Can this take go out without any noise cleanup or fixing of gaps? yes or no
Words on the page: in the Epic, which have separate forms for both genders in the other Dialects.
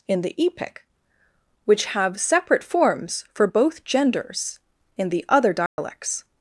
no